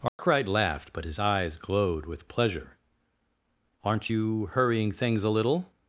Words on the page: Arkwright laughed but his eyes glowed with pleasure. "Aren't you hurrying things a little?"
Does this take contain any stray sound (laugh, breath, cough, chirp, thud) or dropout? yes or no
yes